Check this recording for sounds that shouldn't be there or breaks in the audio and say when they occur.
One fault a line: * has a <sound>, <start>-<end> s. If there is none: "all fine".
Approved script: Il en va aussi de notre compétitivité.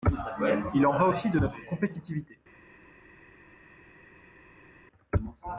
all fine